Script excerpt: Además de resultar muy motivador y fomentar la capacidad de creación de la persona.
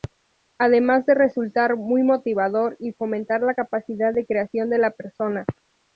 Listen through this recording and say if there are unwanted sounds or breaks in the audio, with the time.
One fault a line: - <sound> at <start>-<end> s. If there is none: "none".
none